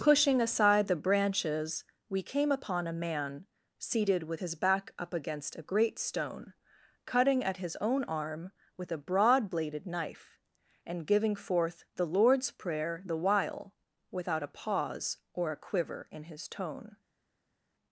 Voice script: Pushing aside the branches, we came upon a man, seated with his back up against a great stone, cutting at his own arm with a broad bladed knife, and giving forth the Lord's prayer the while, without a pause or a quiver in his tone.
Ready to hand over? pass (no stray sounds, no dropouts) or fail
pass